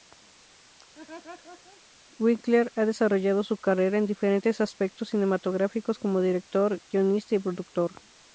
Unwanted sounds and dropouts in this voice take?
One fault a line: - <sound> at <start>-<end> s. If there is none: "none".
- laugh at 0.9-1.8 s